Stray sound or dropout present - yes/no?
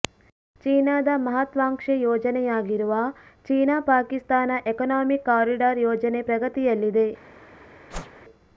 yes